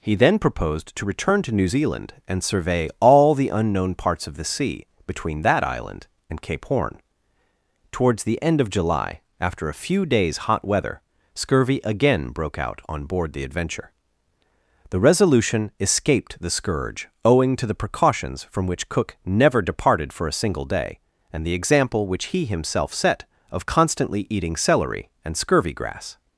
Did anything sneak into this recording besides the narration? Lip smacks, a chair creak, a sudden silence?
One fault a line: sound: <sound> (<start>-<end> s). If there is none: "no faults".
no faults